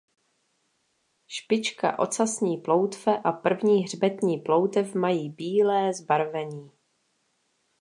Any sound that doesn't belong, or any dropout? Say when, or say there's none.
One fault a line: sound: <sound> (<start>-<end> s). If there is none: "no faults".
no faults